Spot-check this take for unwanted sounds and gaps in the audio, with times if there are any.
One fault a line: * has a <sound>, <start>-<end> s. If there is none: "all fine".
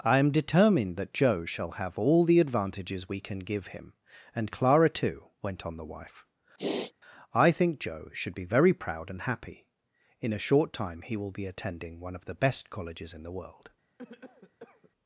* has a sniff, 6.6-6.9 s
* has a cough, 14.0-14.9 s